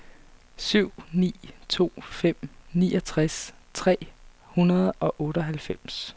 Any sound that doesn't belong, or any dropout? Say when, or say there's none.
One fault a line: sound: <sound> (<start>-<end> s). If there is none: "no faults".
no faults